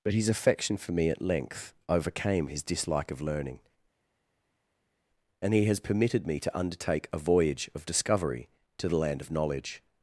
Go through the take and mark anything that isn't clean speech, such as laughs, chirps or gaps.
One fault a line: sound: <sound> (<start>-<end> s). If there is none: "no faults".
no faults